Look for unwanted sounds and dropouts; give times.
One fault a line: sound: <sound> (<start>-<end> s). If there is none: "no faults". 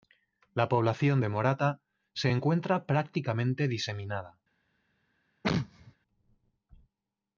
sound: sneeze (5.4-6.0 s)